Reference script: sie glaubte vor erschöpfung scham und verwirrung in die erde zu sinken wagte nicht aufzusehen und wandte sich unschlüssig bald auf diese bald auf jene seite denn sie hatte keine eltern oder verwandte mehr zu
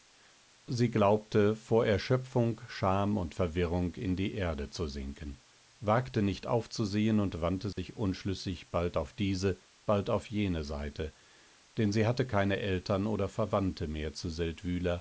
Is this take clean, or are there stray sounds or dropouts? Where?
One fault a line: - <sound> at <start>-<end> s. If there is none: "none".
- dropout at 7.7-7.8 s